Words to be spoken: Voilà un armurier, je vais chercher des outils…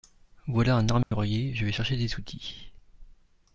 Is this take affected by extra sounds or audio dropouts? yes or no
yes